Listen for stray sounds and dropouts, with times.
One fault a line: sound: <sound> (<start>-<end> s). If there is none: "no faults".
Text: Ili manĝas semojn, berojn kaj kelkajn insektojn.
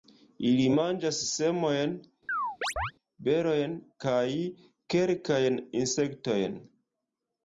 sound: chirp (2.3-2.9 s)